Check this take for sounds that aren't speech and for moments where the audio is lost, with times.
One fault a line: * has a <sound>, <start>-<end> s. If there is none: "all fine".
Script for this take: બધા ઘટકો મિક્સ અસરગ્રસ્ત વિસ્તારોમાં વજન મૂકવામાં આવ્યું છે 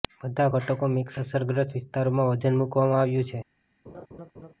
* has a laugh, 3.8-4.5 s